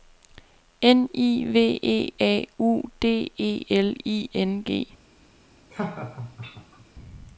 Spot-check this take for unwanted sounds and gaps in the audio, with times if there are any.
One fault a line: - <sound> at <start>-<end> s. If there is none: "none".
- laugh at 5.7-6.8 s